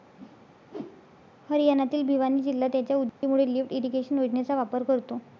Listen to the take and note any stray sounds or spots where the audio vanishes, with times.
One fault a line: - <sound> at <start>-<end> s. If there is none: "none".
- whoosh at 0.2-1.3 s
- dropout at 3.1-3.2 s